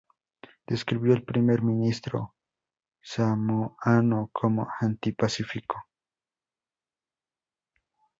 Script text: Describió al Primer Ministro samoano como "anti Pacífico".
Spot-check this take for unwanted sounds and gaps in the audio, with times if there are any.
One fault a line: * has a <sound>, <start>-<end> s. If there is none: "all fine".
all fine